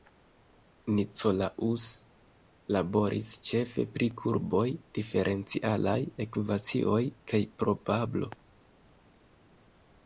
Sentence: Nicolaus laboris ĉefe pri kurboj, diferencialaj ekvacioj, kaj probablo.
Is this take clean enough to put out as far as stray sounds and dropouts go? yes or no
yes